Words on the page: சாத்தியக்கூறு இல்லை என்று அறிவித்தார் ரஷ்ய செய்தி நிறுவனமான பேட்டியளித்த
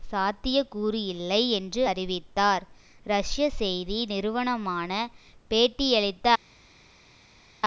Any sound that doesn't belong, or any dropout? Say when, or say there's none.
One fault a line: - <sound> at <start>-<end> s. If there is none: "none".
none